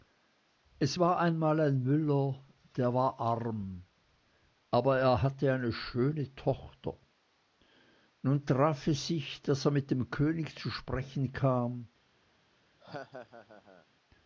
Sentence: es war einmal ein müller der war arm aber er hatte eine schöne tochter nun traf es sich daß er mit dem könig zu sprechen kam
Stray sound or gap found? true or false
true